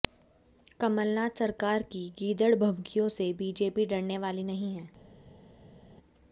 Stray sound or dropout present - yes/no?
no